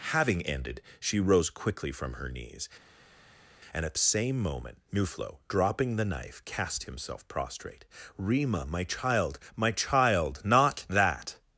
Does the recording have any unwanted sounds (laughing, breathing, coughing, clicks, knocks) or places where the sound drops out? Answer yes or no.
no